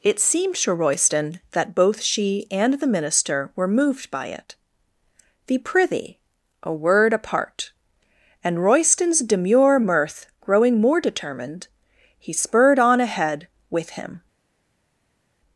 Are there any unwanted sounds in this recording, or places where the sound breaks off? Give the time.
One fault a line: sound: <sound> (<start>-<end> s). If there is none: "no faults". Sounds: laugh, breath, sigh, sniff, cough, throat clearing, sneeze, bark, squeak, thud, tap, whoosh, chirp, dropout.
no faults